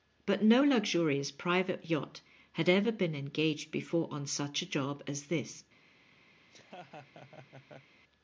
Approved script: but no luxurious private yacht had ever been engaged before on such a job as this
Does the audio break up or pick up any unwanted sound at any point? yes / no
yes